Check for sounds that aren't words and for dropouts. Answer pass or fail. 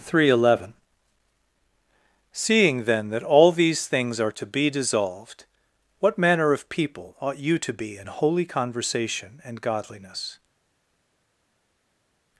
pass